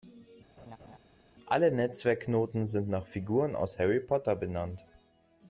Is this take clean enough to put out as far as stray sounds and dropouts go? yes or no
no